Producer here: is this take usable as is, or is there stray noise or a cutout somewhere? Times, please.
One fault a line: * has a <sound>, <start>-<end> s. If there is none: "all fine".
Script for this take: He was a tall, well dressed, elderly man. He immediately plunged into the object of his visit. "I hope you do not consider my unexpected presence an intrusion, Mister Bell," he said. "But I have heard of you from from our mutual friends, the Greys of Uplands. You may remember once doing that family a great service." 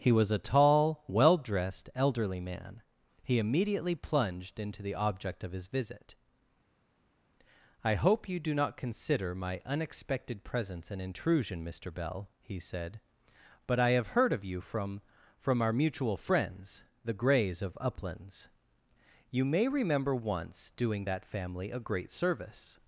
all fine